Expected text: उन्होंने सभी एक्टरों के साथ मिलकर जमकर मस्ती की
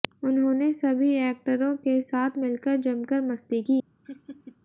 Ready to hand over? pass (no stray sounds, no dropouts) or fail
fail